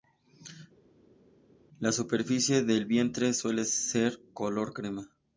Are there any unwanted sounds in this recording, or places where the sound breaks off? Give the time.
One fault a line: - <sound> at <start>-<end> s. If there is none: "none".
none